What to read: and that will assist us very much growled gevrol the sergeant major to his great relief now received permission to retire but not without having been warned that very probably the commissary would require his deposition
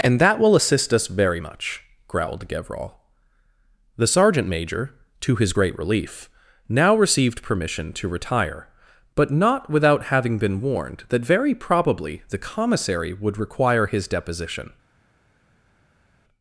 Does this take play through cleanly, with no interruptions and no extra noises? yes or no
yes